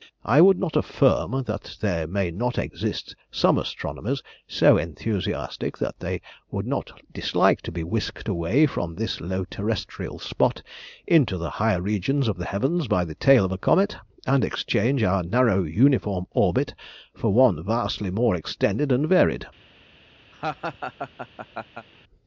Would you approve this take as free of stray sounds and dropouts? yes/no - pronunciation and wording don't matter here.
no